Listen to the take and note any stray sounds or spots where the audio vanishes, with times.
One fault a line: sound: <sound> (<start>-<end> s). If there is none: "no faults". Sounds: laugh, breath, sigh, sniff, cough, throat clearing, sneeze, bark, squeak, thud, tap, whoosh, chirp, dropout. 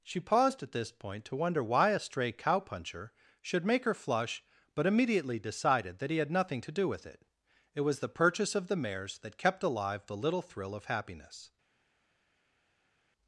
no faults